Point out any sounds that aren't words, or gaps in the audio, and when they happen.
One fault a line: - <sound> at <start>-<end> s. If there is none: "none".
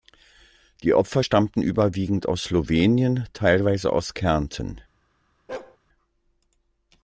- bark at 5.5-5.8 s